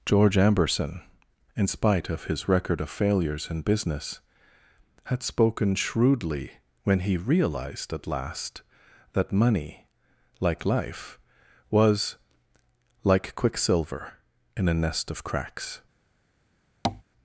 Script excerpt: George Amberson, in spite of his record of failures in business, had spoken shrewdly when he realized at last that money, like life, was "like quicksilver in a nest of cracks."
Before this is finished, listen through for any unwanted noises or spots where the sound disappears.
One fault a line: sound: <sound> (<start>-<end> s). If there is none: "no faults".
sound: tap (16.8-17.0 s)